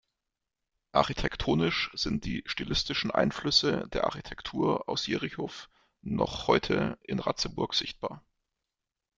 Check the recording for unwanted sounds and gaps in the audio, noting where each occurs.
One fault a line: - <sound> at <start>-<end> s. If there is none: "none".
none